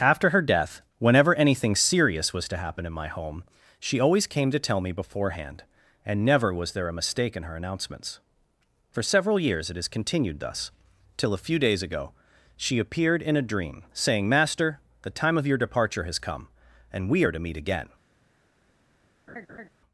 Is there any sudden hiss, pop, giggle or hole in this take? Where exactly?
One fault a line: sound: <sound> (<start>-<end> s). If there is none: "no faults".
sound: laugh (19.3-19.7 s)